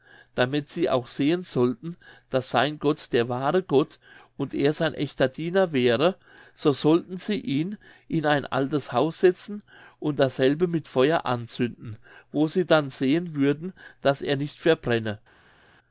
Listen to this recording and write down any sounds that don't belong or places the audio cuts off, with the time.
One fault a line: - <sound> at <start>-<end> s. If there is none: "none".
none